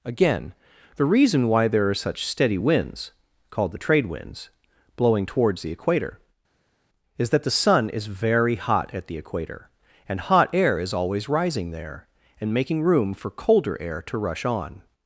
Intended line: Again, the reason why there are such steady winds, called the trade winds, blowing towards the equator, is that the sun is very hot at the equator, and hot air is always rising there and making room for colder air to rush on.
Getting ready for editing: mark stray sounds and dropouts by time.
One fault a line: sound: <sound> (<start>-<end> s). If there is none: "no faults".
no faults